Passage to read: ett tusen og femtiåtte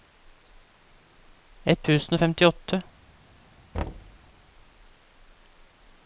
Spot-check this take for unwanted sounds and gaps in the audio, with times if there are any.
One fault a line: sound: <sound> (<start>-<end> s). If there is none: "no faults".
sound: thud (3.7-4.2 s)